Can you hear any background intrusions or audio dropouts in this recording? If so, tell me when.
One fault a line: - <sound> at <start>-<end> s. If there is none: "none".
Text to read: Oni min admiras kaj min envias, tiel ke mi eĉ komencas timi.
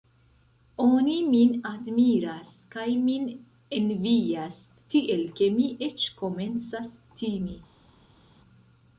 none